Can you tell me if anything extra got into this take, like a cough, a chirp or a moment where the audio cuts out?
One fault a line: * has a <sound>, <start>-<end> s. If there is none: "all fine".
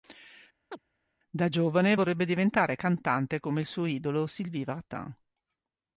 * has a chirp, 0.7-0.8 s